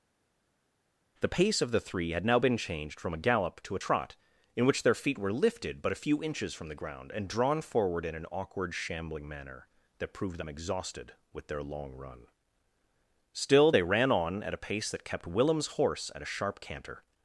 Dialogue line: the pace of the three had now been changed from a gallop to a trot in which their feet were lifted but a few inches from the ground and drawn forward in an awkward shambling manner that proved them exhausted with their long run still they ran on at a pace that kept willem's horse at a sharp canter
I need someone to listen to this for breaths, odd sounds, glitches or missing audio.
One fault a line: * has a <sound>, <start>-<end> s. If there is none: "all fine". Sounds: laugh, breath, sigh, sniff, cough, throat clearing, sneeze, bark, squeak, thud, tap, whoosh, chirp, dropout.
all fine